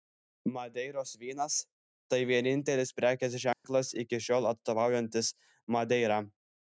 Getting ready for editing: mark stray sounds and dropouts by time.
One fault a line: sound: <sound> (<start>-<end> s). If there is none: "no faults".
sound: dropout (3.5-3.6 s)